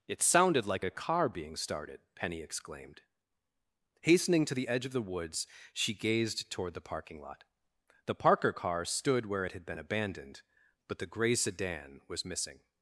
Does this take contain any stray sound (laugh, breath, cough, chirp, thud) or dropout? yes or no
no